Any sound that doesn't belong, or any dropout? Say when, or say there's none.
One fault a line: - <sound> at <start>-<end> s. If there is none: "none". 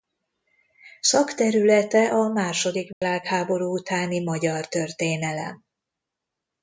- dropout at 2.9-3.0 s